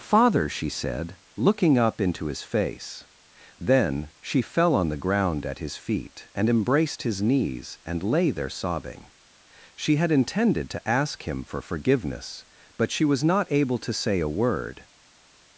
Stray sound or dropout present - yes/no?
no